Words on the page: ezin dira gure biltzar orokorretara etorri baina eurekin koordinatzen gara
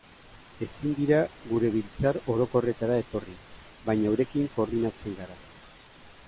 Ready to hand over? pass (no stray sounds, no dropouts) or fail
pass